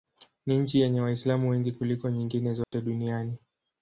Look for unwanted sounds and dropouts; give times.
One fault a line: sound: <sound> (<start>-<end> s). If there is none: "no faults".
sound: dropout (2.6-2.7 s)